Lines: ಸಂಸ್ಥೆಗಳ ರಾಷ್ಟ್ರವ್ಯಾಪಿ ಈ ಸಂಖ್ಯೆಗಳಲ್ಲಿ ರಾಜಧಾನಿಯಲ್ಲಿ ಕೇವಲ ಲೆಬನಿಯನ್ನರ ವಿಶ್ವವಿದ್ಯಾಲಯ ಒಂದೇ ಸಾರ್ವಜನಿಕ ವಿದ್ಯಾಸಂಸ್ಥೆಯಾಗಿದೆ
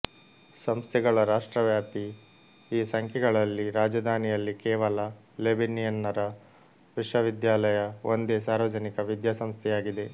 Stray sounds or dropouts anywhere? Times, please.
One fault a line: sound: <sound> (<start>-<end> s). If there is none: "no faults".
no faults